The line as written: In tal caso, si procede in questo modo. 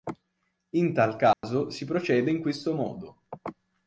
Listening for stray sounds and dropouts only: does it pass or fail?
fail